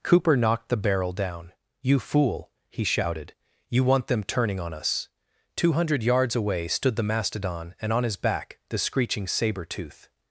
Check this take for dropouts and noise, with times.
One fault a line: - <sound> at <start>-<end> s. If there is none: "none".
none